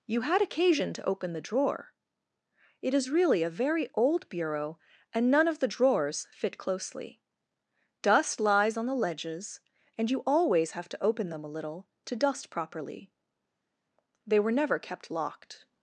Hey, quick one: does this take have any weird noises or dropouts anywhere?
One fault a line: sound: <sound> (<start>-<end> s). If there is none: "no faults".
no faults